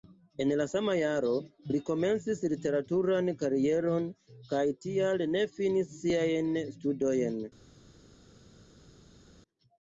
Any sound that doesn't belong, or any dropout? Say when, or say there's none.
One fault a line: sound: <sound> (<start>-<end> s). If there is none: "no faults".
no faults